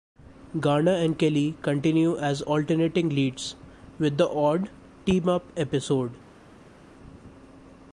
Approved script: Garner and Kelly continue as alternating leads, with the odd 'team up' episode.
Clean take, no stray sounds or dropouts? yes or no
yes